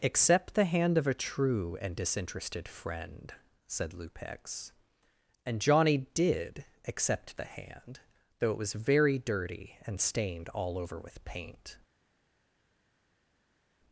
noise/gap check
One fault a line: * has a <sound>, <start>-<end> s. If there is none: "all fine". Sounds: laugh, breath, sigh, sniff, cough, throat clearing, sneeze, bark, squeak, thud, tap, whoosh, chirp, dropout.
all fine